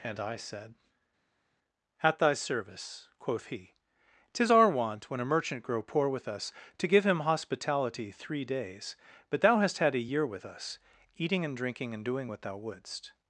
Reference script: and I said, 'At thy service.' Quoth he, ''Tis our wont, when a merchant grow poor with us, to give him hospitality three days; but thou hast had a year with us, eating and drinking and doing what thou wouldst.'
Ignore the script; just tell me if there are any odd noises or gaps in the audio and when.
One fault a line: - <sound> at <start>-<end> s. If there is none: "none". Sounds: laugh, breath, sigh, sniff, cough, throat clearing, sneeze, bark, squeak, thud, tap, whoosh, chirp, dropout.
none